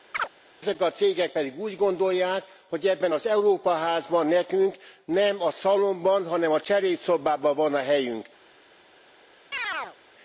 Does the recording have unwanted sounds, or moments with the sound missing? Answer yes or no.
yes